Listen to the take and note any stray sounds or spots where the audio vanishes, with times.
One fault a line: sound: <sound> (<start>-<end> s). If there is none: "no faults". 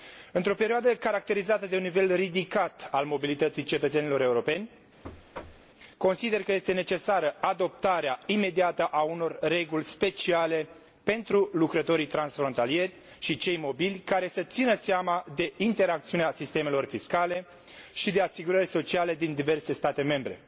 sound: thud (5.0-5.7 s)